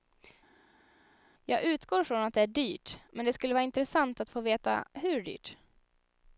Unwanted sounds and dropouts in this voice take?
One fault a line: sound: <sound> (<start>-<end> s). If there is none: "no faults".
no faults